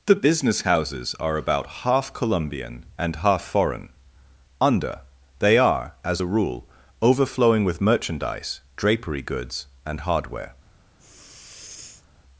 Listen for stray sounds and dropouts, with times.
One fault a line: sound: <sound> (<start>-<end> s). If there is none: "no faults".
sound: sniff (11.0-12.1 s)